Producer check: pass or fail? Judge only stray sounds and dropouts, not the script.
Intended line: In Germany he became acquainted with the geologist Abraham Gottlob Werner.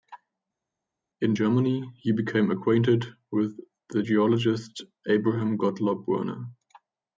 pass